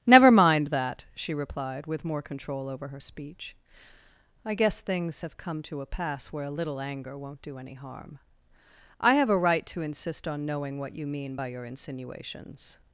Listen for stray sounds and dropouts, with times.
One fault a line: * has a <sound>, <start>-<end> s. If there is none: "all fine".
all fine